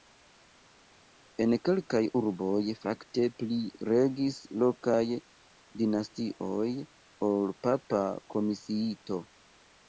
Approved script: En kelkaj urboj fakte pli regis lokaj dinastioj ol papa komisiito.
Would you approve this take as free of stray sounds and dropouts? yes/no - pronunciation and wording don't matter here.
yes